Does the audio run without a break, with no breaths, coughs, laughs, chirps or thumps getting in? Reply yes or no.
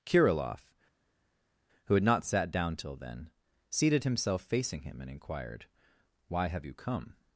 yes